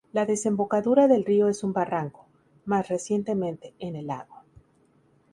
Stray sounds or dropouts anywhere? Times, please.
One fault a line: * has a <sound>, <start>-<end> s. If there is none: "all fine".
all fine